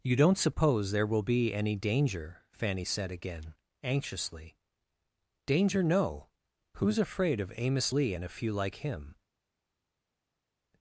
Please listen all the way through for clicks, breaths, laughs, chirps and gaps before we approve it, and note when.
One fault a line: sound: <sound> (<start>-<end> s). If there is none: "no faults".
no faults